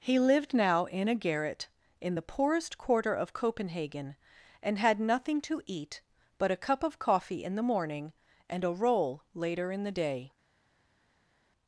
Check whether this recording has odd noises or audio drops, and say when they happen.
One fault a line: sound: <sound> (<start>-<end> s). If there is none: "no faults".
no faults